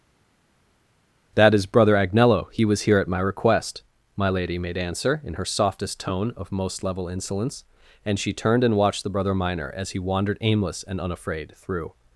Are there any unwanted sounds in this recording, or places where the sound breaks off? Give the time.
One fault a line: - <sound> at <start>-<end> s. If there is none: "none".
none